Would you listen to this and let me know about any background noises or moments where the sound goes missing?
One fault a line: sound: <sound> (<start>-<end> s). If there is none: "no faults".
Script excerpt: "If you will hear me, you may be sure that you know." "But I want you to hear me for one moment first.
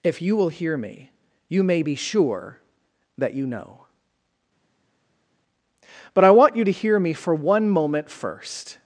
no faults